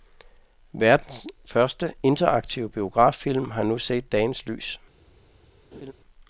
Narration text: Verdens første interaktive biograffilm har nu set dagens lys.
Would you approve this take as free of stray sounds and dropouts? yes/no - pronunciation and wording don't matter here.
no